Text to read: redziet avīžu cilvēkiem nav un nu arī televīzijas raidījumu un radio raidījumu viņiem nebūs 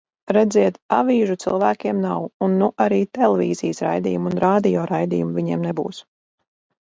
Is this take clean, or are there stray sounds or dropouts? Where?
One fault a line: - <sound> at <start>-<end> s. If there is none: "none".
none